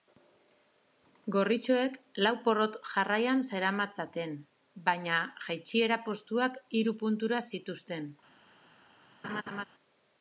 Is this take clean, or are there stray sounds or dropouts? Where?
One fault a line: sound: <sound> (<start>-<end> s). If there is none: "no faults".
sound: laugh (9.2-9.6 s)